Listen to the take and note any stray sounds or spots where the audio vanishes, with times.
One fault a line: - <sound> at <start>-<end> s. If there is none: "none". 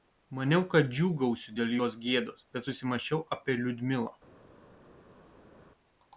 none